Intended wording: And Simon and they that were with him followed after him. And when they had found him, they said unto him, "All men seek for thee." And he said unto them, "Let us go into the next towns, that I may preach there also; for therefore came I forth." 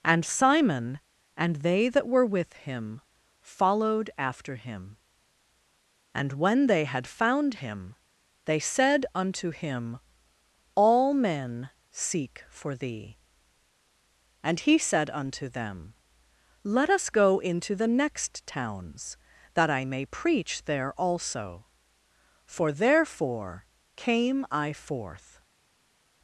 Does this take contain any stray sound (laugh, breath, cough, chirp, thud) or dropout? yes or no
no